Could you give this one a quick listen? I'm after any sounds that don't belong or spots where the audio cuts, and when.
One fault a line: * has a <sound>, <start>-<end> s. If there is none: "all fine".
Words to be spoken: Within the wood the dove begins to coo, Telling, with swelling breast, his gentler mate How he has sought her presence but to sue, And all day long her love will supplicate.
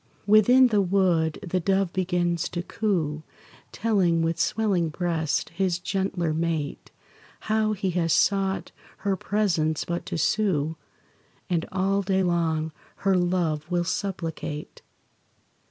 all fine